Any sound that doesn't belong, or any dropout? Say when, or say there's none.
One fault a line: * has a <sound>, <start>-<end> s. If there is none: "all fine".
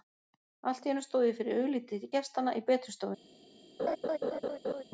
* has a laugh, 3.8-4.8 s